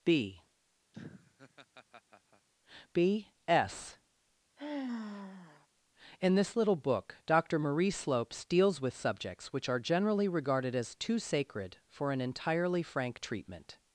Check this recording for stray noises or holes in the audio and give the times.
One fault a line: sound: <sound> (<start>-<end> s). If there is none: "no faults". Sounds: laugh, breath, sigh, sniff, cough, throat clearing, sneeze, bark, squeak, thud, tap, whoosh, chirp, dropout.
sound: laugh (0.9-2.5 s)
sound: sigh (4.6-5.7 s)